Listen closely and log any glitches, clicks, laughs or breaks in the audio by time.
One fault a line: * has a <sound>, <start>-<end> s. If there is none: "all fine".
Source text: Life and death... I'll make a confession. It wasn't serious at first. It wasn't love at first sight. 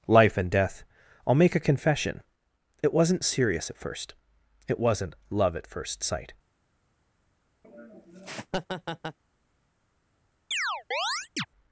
* has a laugh, 7.6-9.2 s
* has a chirp, 10.5-11.5 s